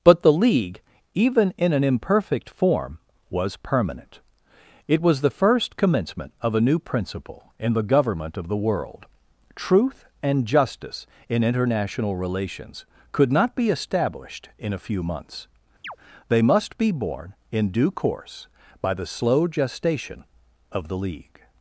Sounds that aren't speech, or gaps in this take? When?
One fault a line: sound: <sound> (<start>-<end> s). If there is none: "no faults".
sound: chirp (15.8-16.0 s)